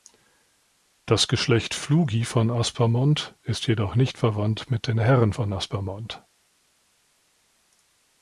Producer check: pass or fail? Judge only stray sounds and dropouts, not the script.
pass